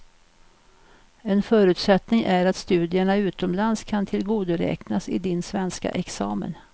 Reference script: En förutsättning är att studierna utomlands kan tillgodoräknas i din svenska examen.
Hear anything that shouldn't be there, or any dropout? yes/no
no